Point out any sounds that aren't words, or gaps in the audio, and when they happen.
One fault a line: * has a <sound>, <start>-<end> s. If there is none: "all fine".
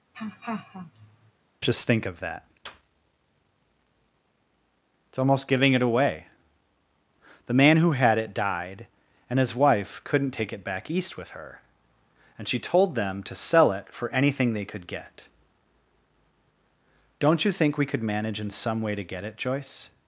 * has a laugh, 0.1-1.3 s